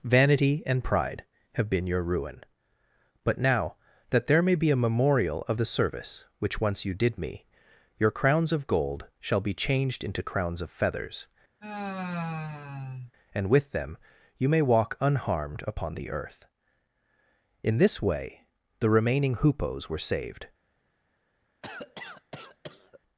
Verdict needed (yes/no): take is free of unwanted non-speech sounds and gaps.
no